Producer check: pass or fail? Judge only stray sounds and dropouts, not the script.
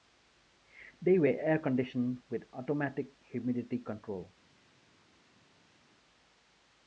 pass